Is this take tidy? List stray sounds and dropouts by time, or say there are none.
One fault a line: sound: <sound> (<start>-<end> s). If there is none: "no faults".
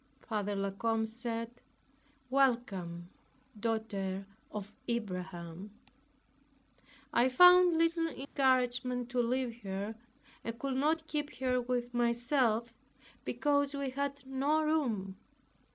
sound: dropout (8.2-8.4 s)